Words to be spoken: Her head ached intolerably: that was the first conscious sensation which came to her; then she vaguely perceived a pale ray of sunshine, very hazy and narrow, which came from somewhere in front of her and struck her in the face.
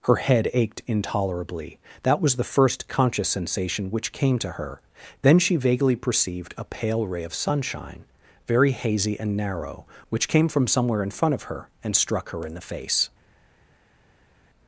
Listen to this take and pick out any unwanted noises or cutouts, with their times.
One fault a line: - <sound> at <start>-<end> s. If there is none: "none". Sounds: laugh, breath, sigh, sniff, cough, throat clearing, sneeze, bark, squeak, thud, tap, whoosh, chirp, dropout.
none